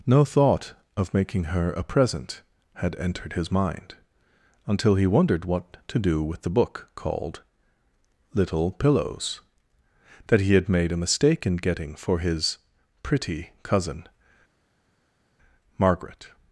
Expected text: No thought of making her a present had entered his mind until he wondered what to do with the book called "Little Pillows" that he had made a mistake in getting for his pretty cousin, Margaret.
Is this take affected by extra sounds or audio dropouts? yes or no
no